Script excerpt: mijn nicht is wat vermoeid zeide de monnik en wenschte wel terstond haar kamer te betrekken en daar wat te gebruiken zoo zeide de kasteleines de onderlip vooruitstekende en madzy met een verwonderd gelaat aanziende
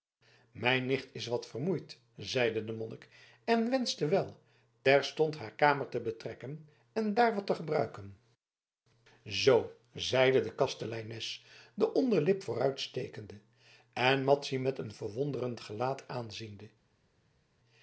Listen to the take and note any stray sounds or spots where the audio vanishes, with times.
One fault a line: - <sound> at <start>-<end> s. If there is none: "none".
none